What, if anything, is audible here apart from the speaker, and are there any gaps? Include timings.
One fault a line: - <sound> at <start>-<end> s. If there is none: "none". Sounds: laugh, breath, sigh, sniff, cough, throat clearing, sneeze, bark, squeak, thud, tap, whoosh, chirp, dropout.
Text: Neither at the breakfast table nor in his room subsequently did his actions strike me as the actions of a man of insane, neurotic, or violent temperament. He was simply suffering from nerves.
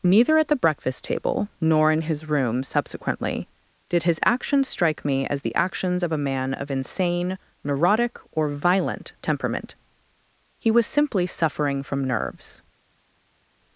none